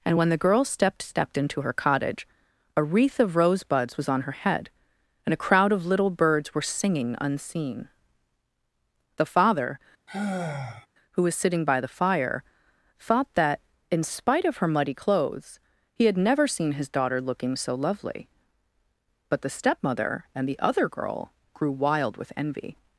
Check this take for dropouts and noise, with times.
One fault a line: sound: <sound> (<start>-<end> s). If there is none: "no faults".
sound: sigh (10.1-10.9 s)